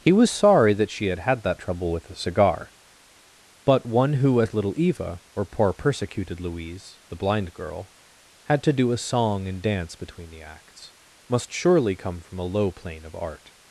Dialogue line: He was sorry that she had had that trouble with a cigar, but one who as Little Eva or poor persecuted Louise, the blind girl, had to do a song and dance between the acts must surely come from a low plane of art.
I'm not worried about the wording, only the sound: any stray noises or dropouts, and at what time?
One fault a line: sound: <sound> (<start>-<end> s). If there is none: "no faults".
no faults